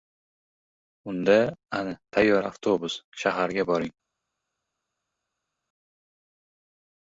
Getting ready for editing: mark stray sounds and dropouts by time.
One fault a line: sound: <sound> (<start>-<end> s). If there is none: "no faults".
no faults